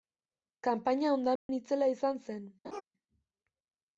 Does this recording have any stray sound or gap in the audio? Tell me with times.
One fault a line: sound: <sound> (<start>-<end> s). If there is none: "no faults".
sound: dropout (1.4-1.5 s)
sound: laugh (2.6-2.8 s)